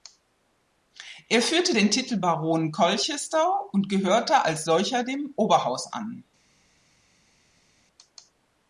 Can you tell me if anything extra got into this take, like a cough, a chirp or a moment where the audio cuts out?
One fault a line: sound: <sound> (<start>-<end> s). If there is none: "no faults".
no faults